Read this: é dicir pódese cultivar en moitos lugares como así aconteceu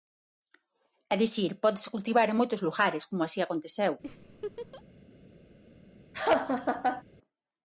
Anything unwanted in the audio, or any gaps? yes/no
yes